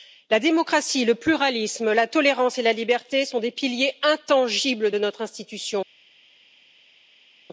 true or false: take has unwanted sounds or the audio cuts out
false